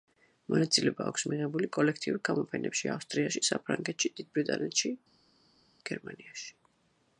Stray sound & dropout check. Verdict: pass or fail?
pass